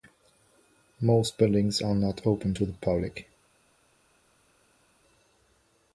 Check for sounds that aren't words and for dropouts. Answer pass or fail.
pass